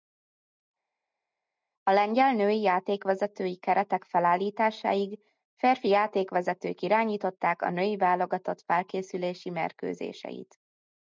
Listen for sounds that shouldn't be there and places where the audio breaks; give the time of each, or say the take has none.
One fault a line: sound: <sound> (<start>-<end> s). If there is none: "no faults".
no faults